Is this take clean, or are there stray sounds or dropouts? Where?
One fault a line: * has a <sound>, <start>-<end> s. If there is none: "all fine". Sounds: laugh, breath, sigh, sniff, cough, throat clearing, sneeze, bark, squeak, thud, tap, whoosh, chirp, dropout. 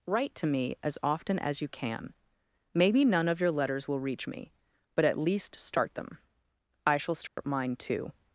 * has a dropout, 7.3-7.4 s